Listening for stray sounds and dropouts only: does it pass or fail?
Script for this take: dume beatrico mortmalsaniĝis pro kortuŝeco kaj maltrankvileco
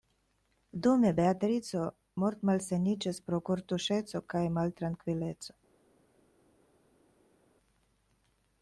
pass